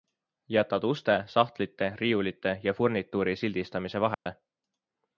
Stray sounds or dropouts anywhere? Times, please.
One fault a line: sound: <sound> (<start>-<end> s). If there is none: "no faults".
sound: dropout (4.1-4.3 s)